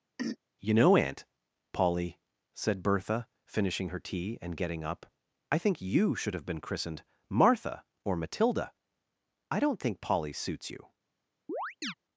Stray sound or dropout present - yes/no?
yes